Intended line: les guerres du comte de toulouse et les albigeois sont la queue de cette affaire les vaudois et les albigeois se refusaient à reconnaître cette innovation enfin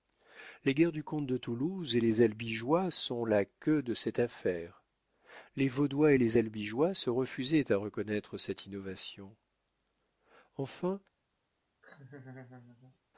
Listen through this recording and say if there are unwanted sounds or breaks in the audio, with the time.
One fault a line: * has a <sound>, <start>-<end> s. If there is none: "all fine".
* has a laugh, 11.8-13.0 s